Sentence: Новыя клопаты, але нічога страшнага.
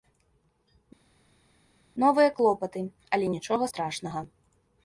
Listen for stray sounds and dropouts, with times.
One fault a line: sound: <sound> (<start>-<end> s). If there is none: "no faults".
no faults